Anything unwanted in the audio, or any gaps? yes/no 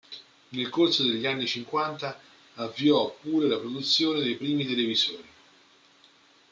no